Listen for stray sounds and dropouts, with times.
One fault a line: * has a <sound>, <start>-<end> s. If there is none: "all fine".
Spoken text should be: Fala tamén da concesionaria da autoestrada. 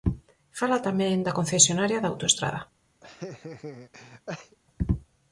* has a laugh, 3.0-4.6 s